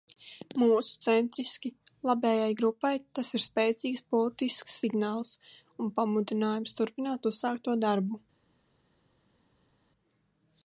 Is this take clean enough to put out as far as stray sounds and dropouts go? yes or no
yes